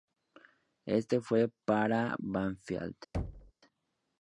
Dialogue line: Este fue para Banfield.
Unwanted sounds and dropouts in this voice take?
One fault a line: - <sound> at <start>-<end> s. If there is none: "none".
- thud at 3.1-3.5 s